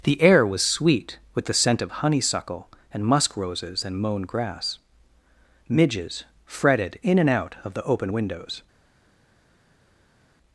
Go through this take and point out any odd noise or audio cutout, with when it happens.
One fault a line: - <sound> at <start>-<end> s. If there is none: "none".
none